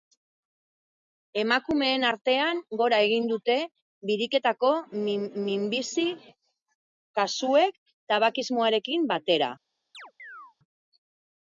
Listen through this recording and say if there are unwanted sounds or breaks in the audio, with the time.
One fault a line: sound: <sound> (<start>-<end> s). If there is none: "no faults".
sound: chirp (9.9-10.6 s)